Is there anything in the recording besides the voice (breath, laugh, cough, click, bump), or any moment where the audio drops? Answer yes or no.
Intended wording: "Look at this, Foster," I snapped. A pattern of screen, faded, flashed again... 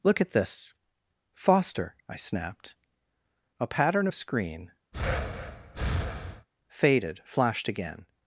yes